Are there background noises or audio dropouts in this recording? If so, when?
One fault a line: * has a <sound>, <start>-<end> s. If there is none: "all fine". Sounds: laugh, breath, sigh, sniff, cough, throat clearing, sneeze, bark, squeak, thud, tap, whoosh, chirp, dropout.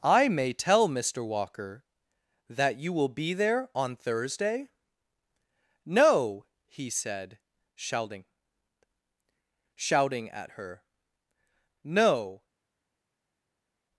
all fine